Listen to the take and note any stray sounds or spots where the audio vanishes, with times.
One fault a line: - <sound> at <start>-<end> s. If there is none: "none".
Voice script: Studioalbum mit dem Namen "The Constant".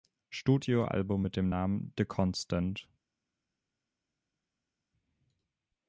none